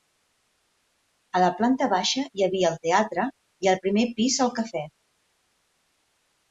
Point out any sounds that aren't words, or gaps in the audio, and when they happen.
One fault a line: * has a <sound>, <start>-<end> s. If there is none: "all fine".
all fine